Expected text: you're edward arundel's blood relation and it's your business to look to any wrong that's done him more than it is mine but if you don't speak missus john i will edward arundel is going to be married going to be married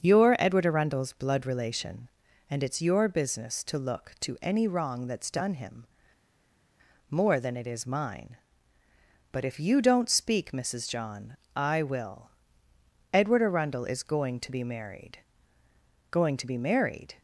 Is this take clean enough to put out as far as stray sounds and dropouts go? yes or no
yes